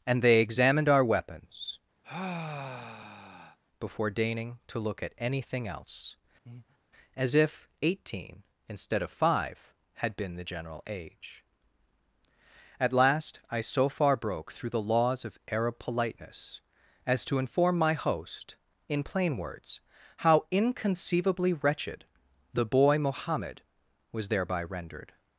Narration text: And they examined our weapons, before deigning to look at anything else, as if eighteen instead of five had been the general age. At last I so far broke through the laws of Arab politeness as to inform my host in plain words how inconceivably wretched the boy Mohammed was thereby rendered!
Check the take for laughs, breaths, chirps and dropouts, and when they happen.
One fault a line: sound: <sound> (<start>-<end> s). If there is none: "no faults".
sound: sigh (2.0-3.6 s)
sound: breath (6.5-6.8 s)